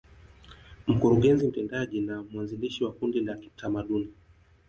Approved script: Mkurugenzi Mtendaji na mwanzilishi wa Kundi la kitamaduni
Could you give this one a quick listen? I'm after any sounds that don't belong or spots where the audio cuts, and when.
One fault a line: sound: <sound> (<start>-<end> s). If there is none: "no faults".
no faults